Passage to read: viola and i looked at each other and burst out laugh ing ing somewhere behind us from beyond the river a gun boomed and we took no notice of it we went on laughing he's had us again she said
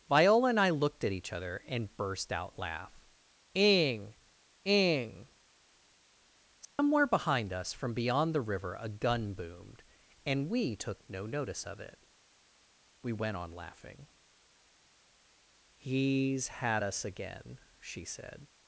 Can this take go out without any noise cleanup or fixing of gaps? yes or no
no